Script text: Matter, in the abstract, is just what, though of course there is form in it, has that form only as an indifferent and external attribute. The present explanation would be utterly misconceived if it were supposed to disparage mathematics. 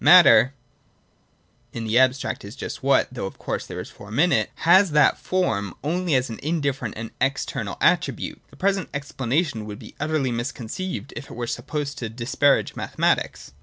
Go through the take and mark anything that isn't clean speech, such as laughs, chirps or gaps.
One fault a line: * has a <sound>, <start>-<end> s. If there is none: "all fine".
all fine